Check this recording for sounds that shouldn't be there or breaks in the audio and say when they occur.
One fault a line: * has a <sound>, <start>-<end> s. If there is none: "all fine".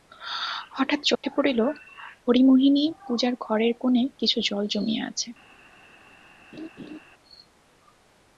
* has a dropout, 1.2-1.2 s
* has a laugh, 6.5-7.0 s